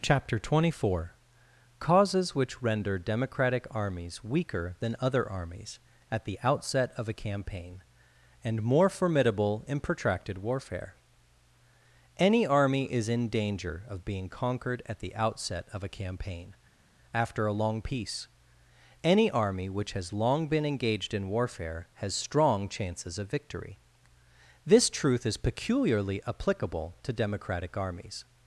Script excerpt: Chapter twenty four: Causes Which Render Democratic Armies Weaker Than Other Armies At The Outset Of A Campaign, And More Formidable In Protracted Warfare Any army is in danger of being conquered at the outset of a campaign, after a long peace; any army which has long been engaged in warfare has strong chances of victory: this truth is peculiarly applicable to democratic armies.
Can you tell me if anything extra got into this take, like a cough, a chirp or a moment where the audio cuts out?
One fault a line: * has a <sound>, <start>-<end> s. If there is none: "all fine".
all fine